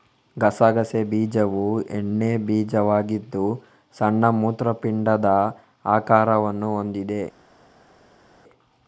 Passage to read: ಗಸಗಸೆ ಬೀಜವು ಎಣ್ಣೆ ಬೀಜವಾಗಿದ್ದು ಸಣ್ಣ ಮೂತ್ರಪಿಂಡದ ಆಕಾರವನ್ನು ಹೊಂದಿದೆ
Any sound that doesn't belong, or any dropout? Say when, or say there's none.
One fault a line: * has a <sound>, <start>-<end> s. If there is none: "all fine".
all fine